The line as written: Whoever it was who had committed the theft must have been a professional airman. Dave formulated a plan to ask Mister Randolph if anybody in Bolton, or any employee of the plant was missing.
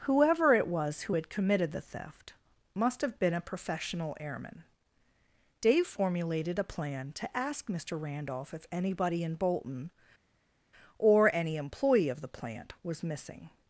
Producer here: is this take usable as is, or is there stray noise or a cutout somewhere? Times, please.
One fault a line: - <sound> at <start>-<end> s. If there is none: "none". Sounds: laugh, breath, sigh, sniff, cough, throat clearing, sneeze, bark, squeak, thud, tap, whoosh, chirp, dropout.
none